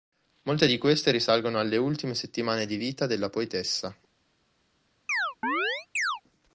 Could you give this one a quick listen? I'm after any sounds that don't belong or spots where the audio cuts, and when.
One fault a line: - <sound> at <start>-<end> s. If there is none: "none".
- chirp at 5.1-6.2 s